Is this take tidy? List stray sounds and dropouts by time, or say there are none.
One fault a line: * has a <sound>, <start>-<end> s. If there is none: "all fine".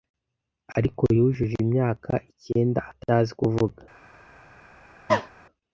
* has a cough, 5.1-5.3 s